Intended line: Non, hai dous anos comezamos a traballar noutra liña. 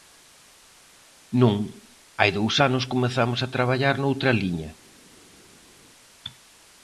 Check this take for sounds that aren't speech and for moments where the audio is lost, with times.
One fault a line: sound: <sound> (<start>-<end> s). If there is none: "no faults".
no faults